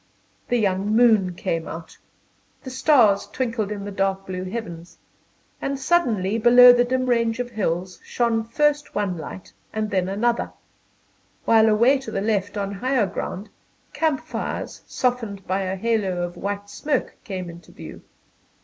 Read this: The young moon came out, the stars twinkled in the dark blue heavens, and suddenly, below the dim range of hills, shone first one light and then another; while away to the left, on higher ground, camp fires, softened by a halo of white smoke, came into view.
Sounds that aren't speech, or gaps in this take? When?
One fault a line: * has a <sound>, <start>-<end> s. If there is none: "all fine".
all fine